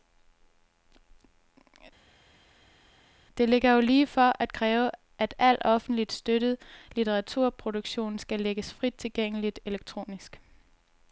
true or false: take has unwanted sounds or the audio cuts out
false